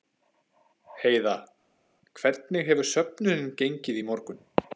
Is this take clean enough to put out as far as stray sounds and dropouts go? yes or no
yes